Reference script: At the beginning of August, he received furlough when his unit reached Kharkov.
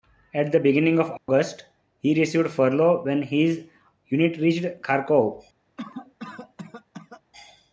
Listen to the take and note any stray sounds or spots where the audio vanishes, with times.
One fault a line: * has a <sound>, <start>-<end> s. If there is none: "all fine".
* has a dropout, 1.2-1.3 s
* has a cough, 5.8-7.2 s